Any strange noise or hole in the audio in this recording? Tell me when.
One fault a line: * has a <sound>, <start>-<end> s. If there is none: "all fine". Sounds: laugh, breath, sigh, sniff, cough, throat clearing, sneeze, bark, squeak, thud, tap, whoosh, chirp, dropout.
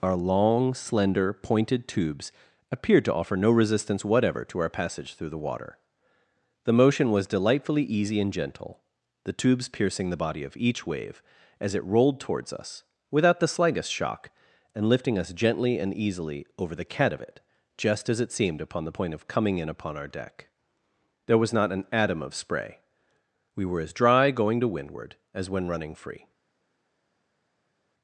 all fine